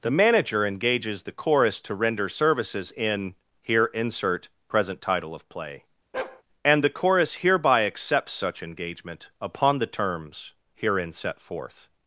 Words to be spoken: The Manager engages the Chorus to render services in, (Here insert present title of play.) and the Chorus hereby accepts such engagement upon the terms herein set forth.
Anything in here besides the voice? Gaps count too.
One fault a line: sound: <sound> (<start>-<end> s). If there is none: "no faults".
sound: bark (6.1-6.4 s)